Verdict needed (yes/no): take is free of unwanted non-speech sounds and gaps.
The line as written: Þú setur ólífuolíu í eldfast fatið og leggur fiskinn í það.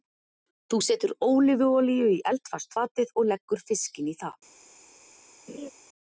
no